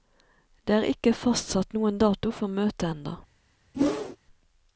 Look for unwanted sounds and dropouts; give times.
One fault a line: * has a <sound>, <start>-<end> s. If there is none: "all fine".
* has a whoosh, 3.7-4.2 s